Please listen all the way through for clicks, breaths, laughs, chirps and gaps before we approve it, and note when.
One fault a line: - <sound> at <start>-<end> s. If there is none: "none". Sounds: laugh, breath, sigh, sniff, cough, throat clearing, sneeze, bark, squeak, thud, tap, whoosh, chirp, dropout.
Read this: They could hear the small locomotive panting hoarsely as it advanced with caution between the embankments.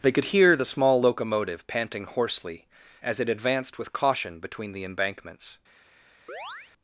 - chirp at 6.3-6.7 s